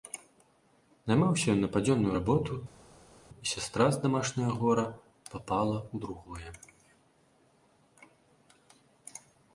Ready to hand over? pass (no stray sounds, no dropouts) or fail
pass